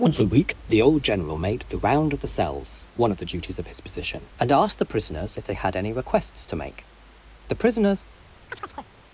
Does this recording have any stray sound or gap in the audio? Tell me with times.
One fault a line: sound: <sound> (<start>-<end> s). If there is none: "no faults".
sound: chirp (8.5-8.9 s)